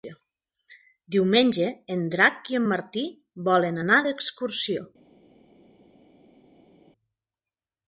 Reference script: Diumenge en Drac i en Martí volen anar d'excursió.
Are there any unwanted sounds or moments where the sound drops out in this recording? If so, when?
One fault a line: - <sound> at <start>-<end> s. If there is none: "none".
none